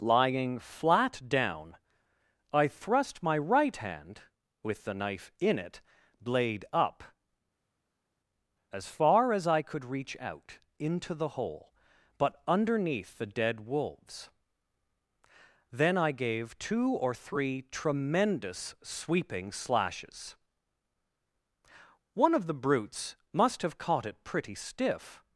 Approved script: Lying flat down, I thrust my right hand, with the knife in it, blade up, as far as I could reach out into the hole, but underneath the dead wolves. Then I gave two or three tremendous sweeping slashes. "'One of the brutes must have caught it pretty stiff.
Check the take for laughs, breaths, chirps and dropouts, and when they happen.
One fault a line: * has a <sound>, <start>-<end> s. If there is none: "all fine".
all fine